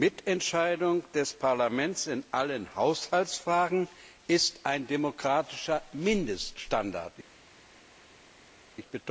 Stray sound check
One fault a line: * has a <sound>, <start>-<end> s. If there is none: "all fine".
all fine